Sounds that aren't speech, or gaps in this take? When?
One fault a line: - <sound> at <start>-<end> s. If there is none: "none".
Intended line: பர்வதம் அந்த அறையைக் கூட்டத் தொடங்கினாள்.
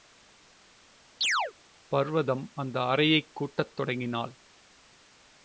- chirp at 1.2-1.5 s